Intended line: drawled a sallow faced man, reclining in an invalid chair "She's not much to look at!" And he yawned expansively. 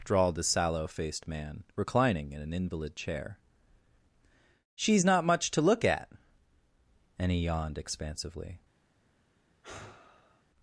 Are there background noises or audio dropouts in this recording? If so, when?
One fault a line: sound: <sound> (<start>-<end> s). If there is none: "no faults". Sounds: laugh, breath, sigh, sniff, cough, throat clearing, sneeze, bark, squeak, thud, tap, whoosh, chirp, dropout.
sound: sigh (9.6-10.4 s)